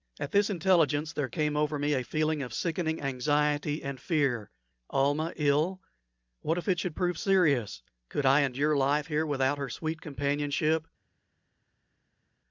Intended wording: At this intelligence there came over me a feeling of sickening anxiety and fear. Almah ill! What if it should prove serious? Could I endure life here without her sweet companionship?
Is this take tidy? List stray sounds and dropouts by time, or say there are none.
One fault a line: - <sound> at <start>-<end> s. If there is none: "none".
none